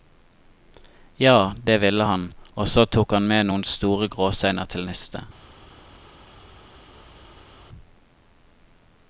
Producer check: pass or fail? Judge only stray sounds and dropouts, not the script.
pass